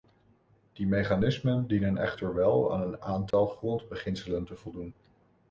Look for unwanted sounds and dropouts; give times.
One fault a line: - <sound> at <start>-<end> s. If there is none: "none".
- dropout at 3.3-3.3 s